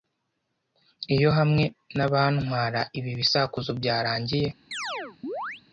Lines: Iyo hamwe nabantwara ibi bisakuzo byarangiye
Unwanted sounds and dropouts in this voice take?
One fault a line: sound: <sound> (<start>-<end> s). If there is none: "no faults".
sound: chirp (4.7-5.6 s)